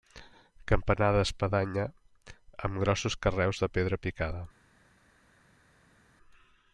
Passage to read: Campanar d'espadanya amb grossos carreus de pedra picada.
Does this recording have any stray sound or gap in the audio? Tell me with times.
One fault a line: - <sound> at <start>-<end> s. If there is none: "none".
none